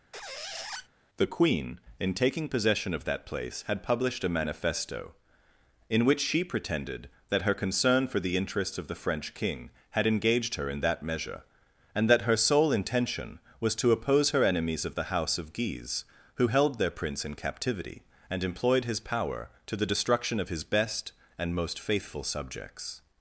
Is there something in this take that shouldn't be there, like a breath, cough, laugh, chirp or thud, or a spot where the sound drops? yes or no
yes